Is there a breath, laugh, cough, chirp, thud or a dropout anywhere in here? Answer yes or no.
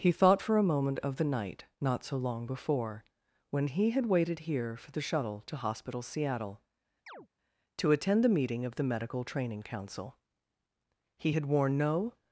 yes